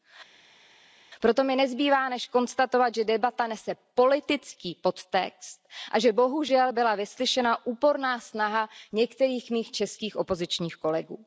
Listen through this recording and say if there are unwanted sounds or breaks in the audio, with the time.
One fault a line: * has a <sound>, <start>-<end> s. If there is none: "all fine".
all fine